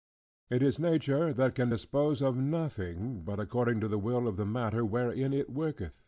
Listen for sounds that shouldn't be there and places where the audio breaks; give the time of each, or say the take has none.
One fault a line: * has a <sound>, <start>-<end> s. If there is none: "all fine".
all fine